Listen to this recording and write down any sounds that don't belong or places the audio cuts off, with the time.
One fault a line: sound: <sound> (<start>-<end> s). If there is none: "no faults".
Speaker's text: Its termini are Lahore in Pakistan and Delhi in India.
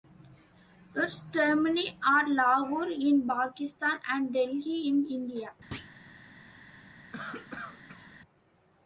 sound: thud (5.7-6.0 s)
sound: cough (7.1-8.1 s)